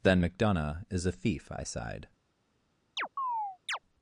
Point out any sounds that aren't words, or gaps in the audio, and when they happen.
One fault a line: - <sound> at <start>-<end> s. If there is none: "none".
- chirp at 3.0-3.8 s